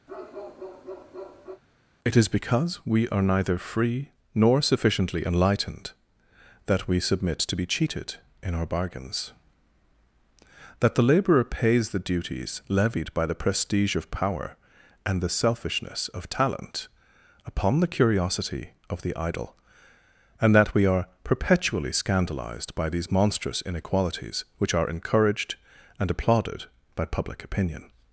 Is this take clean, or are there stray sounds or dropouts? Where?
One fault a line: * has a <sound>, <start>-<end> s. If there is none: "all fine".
* has a bark, 0.1-1.6 s